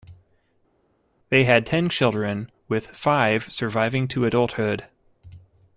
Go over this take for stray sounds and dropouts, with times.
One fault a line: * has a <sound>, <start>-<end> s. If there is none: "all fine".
all fine